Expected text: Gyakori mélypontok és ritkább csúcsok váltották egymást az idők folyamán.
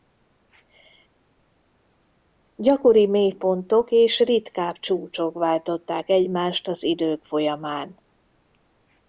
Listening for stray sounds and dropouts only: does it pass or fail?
pass